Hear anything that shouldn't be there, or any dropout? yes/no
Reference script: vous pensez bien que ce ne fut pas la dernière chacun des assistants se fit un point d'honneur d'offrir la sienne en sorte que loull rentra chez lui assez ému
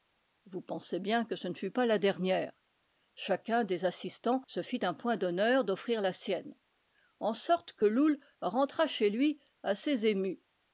no